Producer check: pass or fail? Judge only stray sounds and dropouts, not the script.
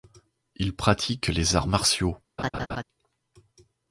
fail